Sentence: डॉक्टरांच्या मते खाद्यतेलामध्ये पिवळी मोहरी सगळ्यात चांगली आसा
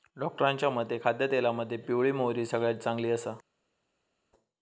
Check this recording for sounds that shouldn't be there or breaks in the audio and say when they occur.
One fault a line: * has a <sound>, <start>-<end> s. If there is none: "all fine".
all fine